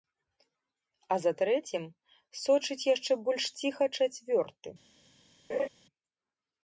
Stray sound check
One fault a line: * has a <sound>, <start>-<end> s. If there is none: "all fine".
* has a laugh, 5.5-5.7 s